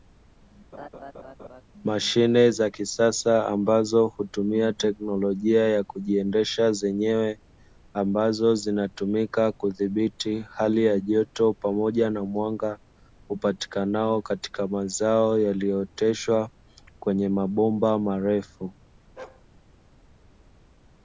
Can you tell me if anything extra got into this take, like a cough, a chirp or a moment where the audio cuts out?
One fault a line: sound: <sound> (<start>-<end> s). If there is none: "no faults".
sound: laugh (0.7-1.6 s)
sound: bark (19.2-19.5 s)